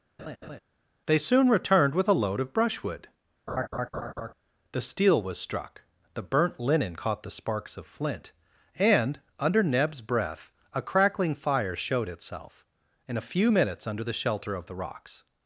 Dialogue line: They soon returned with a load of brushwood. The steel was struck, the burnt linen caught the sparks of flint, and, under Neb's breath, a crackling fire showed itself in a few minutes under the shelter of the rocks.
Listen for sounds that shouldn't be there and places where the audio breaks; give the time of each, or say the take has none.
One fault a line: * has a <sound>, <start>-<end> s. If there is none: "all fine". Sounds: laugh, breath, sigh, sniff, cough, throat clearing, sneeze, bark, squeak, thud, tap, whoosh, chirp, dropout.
* has a laugh, 0.2-0.6 s
* has a laugh, 3.5-4.3 s